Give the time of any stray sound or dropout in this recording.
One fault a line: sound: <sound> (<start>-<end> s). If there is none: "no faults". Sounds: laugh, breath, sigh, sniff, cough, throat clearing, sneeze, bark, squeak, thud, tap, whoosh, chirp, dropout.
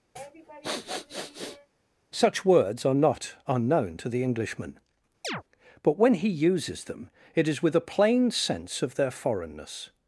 sound: sniff (0.2-1.7 s)
sound: chirp (5.2-5.4 s)